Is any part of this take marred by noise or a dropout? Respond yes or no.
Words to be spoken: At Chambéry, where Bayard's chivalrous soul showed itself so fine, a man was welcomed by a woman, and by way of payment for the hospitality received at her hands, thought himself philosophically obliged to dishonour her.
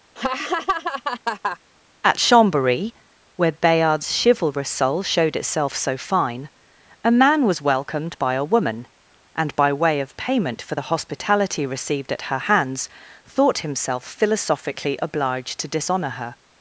yes